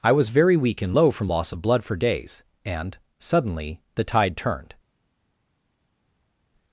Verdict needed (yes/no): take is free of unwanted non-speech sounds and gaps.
yes